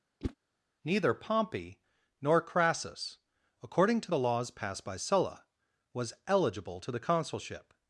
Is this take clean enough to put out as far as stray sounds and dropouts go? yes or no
no